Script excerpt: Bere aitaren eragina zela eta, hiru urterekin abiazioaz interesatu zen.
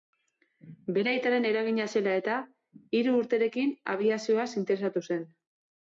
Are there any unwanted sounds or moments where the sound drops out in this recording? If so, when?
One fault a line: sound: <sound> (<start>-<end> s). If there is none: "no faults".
no faults